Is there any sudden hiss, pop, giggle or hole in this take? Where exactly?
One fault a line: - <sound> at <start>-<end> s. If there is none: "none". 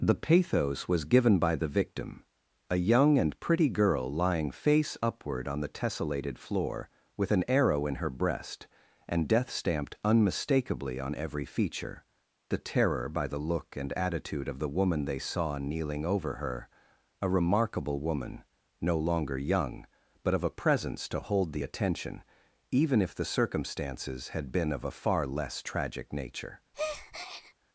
- breath at 26.7-27.5 s